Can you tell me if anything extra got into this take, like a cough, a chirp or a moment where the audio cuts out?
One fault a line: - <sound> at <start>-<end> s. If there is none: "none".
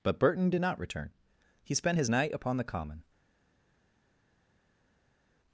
none